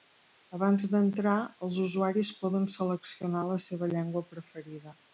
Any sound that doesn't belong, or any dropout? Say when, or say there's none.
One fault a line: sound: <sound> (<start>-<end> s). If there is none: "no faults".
no faults